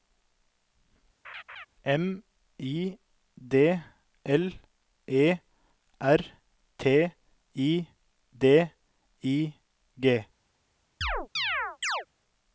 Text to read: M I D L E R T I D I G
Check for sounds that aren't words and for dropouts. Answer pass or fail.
fail